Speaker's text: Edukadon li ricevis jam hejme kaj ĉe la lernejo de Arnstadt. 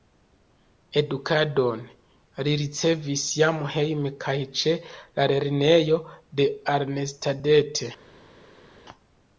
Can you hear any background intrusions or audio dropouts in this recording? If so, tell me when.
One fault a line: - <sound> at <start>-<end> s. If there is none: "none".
none